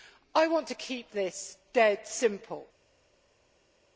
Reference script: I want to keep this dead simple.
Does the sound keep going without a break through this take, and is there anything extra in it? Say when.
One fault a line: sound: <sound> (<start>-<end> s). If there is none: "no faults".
no faults